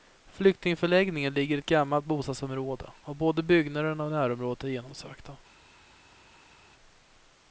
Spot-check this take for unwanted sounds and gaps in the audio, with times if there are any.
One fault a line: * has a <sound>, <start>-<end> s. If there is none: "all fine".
all fine